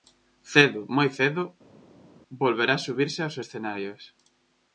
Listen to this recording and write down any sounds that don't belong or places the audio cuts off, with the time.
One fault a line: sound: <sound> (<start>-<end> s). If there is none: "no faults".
no faults